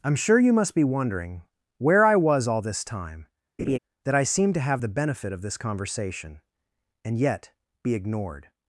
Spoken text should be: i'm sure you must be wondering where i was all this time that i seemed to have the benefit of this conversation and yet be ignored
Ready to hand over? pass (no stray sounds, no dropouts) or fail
fail